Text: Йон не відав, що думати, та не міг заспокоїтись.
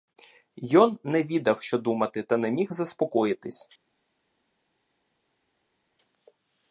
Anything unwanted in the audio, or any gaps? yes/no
no